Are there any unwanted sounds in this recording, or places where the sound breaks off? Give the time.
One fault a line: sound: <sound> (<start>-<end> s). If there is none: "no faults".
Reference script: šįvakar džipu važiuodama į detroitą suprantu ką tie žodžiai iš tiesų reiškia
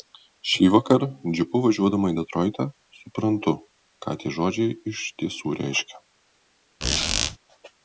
sound: squeak (6.8-7.4 s)